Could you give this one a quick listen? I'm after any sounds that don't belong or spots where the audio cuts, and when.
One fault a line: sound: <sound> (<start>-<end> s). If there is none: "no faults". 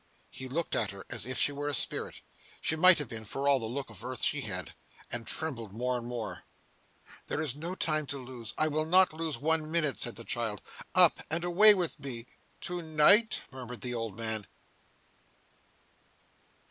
no faults